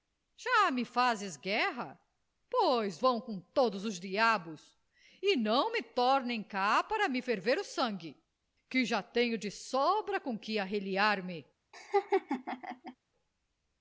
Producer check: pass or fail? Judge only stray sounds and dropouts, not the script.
fail